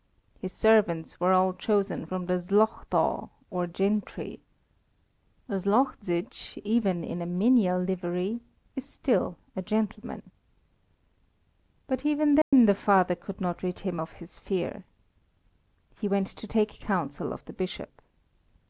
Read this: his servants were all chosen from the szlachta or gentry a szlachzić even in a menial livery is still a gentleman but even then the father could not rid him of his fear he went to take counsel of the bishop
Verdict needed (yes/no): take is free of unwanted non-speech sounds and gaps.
no